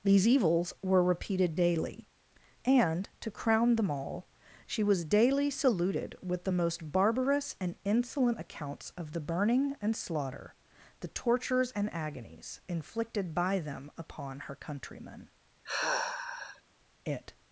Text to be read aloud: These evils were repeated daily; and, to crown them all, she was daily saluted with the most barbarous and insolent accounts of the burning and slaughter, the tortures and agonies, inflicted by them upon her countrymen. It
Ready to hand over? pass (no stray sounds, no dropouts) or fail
fail